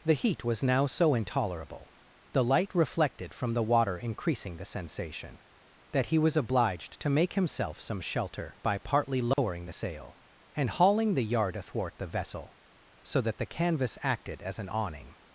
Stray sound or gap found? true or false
true